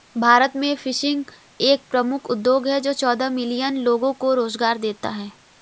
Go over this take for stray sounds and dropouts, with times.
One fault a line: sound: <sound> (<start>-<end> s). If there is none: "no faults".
no faults